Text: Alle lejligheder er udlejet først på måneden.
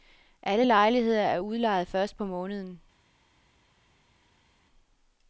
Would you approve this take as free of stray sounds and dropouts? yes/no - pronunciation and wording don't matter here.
yes